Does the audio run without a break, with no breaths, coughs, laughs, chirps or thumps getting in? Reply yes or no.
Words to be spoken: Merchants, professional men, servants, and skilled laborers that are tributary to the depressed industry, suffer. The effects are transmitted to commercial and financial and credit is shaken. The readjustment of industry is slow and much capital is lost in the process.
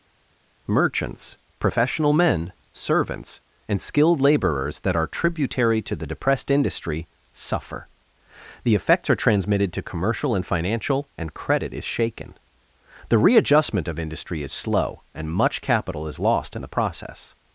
yes